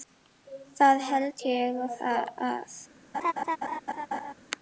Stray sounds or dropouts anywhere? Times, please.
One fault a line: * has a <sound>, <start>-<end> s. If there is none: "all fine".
* has a laugh, 3.1-4.3 s